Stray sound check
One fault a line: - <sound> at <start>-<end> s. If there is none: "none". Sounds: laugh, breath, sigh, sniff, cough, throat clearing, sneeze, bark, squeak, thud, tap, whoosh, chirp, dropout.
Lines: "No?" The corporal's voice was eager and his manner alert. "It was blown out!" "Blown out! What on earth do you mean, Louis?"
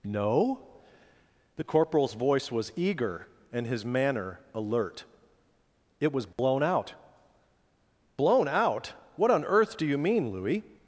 - dropout at 6.3-6.4 s